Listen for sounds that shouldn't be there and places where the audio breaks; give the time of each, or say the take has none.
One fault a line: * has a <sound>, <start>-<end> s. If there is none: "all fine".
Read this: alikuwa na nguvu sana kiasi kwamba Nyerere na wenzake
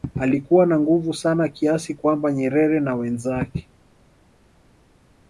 all fine